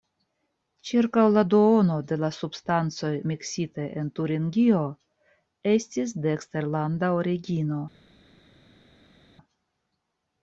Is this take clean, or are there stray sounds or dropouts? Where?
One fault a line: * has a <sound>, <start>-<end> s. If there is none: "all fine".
all fine